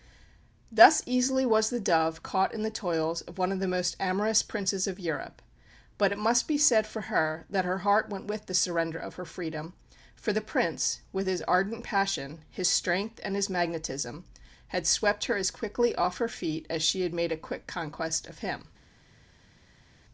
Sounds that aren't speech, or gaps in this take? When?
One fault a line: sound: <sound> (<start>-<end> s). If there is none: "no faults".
no faults